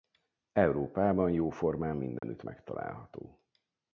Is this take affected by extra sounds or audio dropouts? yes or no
yes